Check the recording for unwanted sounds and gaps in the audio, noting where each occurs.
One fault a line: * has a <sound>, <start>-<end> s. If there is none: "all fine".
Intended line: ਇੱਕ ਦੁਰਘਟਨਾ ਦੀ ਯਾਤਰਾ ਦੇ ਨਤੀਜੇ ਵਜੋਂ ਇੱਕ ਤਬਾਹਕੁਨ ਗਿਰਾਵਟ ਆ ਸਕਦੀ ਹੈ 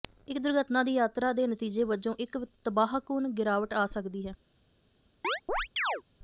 * has a chirp, 5.2-6.0 s